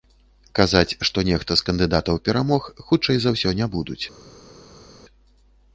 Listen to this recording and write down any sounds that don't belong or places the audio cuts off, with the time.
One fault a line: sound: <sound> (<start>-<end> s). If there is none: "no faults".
no faults